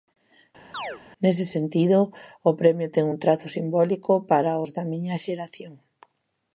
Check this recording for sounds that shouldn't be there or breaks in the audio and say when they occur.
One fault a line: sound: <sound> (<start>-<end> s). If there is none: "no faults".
sound: chirp (0.7-1.0 s)